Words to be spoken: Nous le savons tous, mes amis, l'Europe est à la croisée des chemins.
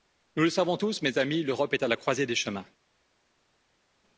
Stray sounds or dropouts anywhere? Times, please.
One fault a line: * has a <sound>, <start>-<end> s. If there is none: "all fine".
all fine